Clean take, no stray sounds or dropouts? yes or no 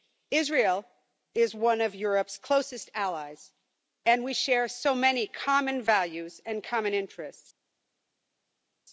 yes